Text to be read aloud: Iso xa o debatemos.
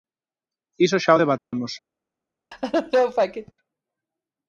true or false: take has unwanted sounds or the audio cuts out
true